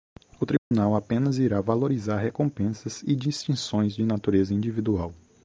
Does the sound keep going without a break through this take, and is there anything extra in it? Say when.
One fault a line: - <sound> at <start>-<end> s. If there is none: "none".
- dropout at 0.6-0.7 s